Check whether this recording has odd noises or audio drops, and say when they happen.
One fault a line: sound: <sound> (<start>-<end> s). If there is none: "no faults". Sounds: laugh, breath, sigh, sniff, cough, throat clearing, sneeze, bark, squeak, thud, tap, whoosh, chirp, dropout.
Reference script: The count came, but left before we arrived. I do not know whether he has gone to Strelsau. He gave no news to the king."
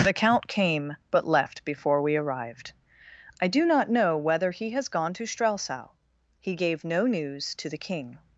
no faults